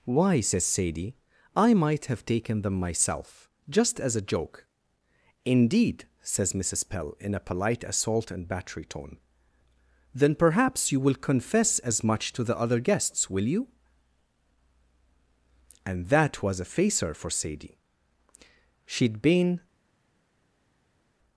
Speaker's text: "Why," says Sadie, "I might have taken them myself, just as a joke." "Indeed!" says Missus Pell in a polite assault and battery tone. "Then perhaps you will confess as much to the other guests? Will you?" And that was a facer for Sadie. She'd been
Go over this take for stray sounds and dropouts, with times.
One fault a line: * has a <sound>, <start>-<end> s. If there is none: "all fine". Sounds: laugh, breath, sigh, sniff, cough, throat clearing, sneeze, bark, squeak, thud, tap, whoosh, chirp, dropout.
all fine